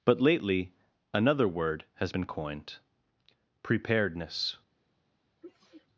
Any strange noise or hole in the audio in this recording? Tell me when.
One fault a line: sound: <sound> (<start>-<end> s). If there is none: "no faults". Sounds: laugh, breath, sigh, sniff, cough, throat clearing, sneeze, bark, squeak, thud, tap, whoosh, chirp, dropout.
sound: sneeze (5.4-5.9 s)